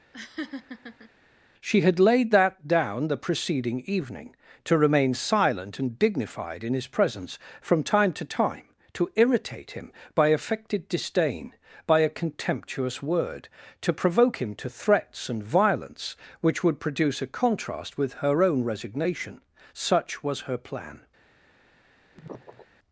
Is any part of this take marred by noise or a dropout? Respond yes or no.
yes